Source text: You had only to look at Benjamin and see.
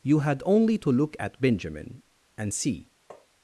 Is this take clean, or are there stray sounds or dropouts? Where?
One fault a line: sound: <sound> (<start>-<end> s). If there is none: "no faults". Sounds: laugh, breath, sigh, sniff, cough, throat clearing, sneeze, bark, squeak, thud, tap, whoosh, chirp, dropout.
sound: tap (3.1-3.3 s)